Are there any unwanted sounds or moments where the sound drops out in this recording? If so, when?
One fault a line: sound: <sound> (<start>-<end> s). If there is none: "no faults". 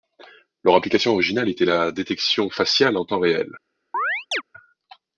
sound: chirp (3.9-4.4 s)